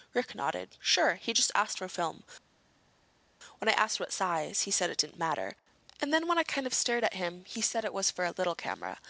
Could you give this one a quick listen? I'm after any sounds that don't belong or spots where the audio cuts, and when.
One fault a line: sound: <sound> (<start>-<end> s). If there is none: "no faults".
no faults